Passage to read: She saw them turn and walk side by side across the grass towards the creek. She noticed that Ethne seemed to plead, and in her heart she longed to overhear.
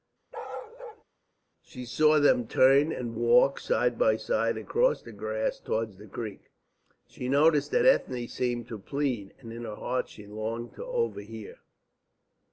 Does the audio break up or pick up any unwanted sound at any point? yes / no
yes